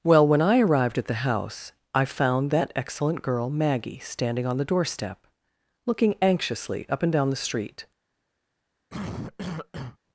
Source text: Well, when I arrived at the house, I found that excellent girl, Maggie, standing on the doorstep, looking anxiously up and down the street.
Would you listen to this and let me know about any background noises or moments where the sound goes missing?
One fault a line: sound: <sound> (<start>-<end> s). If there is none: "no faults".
sound: cough (8.9-10.0 s)